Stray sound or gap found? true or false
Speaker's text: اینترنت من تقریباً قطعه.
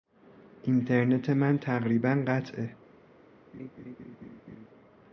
true